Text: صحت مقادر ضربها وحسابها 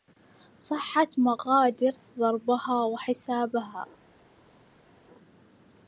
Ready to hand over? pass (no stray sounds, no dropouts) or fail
pass